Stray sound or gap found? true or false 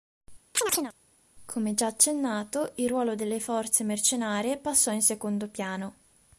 true